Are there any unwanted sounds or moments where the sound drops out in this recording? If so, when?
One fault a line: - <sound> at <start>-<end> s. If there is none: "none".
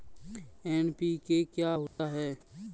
- dropout at 1.9-2.0 s